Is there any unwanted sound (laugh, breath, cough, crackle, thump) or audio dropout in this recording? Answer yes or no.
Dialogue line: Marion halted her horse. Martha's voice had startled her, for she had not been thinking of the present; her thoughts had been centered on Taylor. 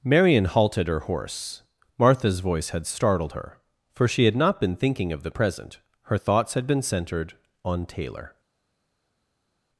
no